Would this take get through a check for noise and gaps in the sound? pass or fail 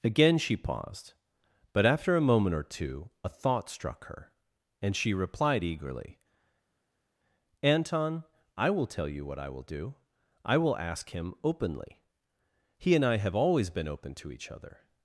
pass